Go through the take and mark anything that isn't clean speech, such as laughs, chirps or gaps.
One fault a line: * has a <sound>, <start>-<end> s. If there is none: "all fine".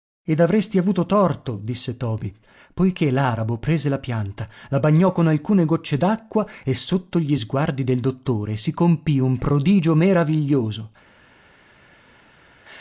all fine